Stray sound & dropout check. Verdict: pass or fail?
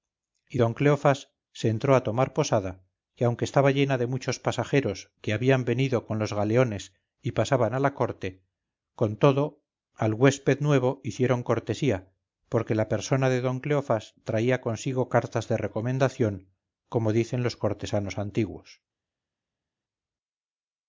pass